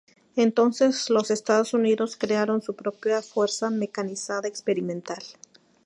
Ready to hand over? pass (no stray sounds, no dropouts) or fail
pass